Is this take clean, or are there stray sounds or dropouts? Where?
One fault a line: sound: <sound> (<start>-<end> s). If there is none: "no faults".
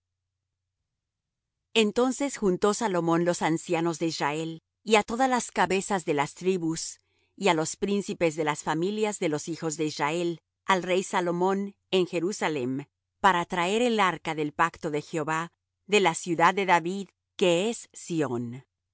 no faults